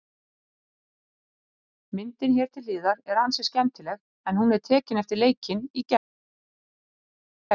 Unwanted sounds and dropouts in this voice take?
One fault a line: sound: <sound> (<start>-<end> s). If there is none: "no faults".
no faults